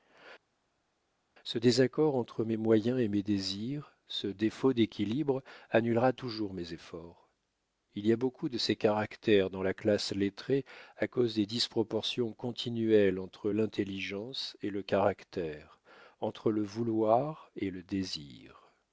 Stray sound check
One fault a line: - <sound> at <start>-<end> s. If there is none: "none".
none